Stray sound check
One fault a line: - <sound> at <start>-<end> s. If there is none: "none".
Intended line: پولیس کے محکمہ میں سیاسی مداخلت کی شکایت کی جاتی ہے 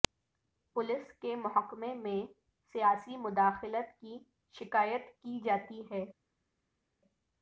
none